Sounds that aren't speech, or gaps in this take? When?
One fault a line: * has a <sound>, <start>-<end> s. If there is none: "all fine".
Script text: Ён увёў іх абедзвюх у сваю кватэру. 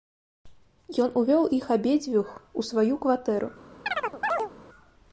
* has a chirp, 3.9-4.5 s